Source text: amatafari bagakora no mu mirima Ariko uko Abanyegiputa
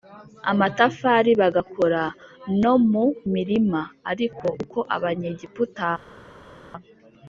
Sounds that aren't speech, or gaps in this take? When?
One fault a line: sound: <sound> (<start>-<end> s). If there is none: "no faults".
no faults